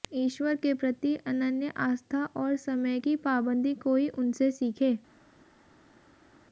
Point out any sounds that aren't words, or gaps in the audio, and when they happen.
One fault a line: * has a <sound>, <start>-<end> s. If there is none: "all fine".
all fine